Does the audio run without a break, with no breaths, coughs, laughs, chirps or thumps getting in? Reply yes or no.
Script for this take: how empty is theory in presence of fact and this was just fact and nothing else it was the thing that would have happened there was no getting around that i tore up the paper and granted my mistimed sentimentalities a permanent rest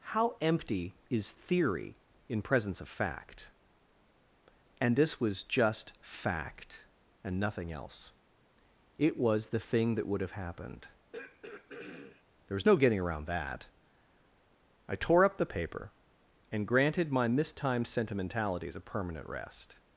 no